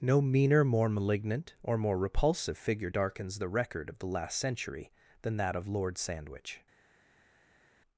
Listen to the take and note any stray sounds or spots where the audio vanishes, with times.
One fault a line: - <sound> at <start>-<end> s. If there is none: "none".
none